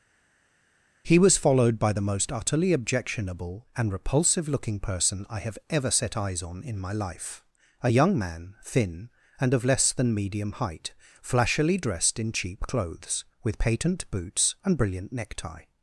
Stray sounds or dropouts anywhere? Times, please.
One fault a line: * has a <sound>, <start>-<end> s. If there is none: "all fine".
all fine